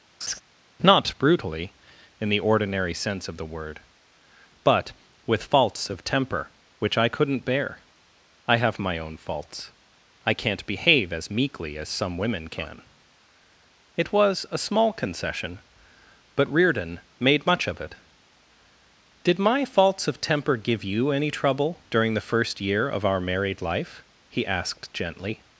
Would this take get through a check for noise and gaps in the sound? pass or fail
fail